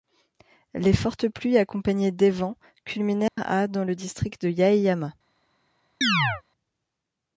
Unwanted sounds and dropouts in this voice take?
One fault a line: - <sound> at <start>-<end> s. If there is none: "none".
- dropout at 3.3-3.4 s
- chirp at 6.0-6.4 s